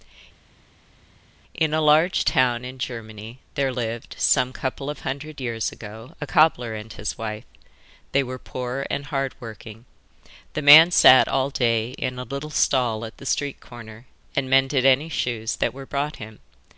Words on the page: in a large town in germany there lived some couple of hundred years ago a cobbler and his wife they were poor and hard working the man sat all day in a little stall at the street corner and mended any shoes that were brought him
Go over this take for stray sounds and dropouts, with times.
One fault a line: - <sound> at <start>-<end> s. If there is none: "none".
none